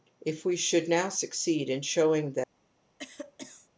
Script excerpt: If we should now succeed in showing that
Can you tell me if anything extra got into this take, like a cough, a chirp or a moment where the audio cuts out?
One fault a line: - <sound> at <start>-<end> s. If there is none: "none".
- cough at 3.0-3.7 s